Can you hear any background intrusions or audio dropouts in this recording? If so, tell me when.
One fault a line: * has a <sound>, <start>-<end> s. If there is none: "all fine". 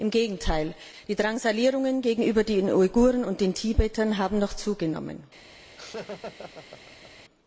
* has a laugh, 5.8-7.2 s